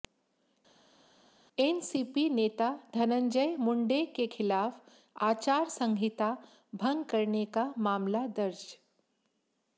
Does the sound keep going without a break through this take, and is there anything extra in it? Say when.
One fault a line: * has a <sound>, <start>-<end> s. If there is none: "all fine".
all fine